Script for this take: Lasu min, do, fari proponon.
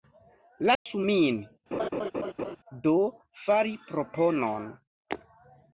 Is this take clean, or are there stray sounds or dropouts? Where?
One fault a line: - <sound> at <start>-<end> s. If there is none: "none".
- dropout at 0.8-0.9 s
- laugh at 1.7-2.6 s